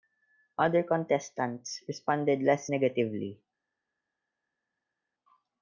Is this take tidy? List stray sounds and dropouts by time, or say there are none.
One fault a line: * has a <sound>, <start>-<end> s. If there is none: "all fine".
all fine